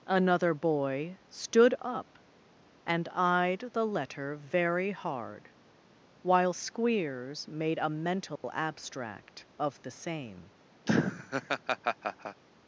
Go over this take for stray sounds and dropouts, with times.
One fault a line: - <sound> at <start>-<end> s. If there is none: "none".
- dropout at 8.4-8.4 s
- laugh at 10.9-12.4 s